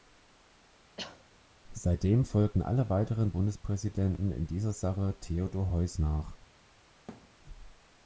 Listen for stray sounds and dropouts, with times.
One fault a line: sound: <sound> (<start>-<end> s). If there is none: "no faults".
sound: cough (1.0-1.2 s)
sound: thud (7.1-7.4 s)